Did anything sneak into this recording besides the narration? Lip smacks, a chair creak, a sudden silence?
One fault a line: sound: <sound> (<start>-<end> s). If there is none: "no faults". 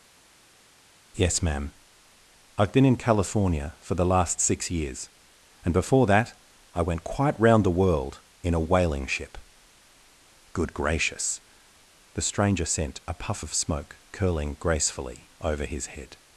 no faults